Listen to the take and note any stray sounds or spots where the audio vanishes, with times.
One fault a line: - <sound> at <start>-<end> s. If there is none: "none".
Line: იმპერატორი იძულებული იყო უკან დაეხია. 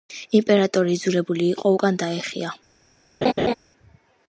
- laugh at 3.2-3.5 s